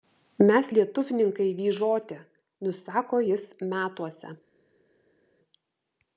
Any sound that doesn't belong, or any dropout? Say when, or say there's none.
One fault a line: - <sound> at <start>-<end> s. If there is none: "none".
none